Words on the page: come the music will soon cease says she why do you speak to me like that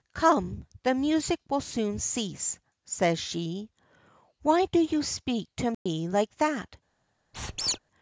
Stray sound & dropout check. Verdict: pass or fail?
fail